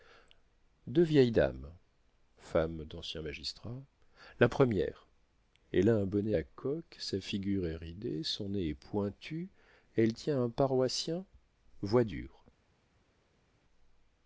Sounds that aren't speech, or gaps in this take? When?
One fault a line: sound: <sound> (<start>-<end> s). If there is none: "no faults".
no faults